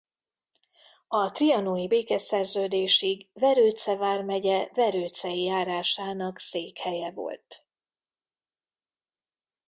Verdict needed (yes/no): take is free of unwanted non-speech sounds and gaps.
yes